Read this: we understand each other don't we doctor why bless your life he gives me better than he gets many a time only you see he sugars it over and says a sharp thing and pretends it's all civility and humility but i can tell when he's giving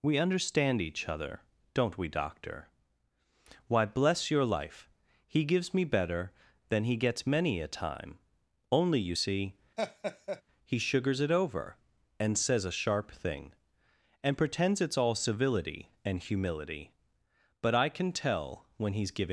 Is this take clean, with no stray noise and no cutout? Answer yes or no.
no